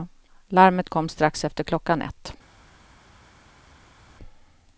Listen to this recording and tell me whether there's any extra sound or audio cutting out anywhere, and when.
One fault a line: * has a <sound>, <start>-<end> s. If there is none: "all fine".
all fine